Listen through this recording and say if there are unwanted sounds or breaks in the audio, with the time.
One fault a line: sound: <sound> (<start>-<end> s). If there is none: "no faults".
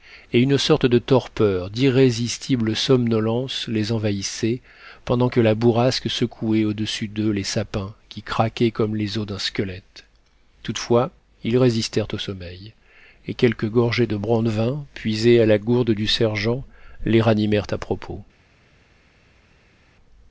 no faults